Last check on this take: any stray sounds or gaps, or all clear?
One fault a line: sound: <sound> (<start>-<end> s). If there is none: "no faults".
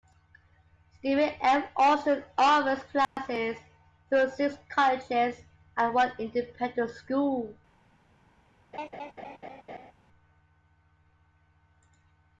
sound: dropout (3.0-3.2 s)
sound: laugh (8.7-9.9 s)